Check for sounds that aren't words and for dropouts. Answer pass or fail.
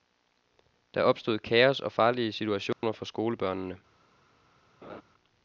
fail